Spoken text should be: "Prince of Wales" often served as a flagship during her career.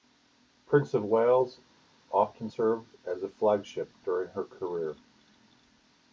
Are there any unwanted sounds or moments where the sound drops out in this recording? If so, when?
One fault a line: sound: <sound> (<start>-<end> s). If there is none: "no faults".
no faults